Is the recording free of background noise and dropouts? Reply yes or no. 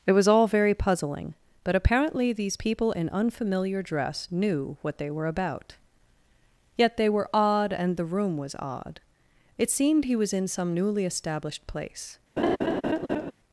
no